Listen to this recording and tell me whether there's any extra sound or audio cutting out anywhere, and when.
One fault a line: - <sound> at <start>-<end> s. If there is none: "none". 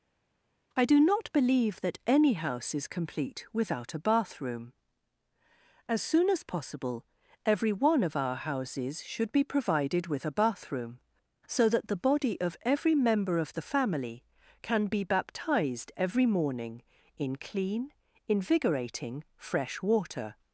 none